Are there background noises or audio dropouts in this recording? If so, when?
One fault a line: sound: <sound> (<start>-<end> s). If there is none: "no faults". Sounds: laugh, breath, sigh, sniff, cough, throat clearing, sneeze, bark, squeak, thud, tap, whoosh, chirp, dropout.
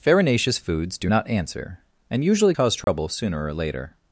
sound: dropout (2.8-2.9 s)